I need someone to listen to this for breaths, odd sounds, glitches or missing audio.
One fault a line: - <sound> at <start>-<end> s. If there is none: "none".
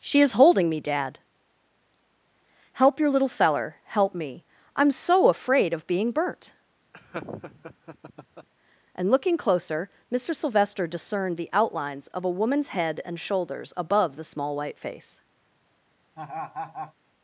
- laugh at 6.9-8.5 s
- laugh at 16.2-16.9 s